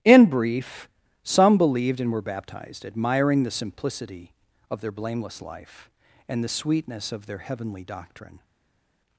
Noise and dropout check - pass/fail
pass